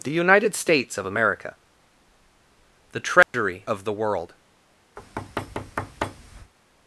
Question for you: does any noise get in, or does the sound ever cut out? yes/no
yes